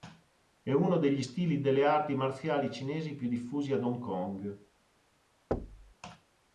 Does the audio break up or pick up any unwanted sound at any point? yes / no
yes